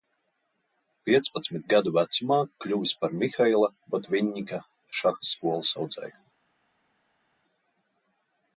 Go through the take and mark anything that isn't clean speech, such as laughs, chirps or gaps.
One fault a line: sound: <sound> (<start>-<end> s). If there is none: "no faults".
no faults